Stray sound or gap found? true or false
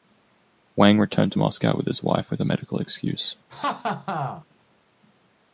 true